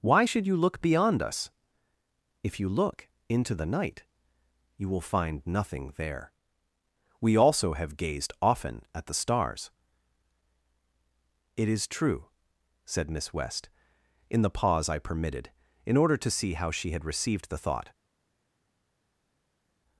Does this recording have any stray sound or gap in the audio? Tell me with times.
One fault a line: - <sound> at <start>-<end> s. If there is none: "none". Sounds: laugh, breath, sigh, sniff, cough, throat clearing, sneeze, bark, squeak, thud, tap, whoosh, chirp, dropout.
none